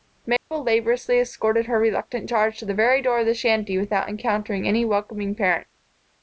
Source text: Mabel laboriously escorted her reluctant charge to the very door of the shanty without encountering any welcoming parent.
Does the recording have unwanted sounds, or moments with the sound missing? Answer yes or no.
yes